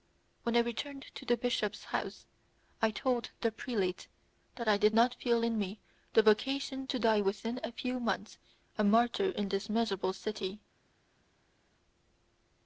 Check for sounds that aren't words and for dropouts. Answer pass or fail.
pass